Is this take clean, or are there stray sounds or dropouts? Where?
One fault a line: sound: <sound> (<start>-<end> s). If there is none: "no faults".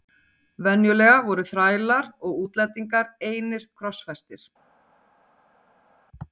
no faults